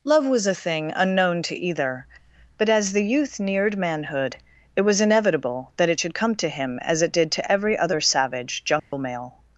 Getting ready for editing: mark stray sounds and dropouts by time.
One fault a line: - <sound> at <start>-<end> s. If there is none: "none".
- dropout at 8.8-8.9 s